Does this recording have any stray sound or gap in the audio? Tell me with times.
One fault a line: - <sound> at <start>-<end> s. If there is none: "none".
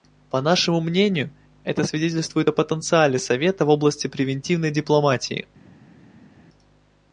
none